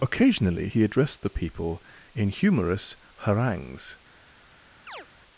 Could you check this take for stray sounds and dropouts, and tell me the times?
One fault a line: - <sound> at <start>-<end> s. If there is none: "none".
- chirp at 4.9-5.1 s